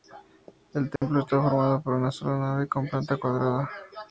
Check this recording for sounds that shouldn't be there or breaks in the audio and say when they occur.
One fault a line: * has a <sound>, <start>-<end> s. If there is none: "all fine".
* has a dropout, 1.0-1.0 s